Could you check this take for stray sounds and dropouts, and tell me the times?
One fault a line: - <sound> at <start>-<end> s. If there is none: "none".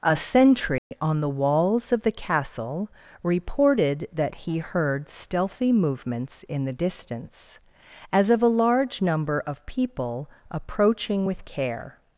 - dropout at 0.8-0.9 s